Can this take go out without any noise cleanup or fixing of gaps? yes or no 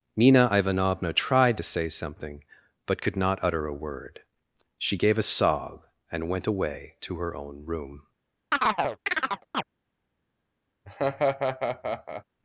no